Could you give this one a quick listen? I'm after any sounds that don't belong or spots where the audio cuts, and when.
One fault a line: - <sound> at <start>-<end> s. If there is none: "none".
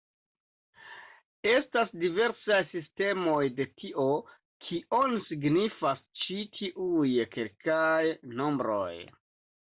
none